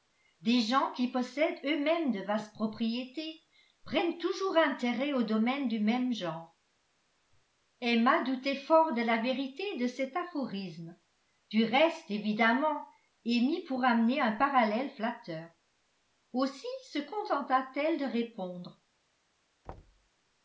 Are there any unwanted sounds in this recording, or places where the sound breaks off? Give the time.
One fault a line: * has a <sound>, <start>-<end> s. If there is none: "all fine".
* has a thud, 19.6-20.1 s